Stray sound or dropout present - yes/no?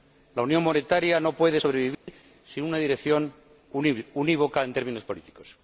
yes